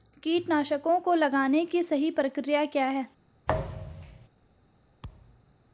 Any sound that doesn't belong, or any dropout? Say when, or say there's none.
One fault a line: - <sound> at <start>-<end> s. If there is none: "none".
- thud at 3.5-4.3 s
- thud at 5.0-5.5 s